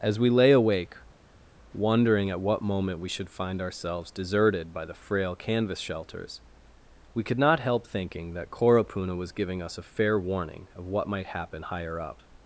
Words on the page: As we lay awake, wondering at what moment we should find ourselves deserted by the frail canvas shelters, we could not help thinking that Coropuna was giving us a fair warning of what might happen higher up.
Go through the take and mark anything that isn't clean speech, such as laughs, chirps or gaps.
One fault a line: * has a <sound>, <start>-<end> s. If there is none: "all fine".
all fine